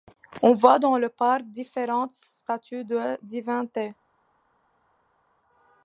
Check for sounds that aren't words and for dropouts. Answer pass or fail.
pass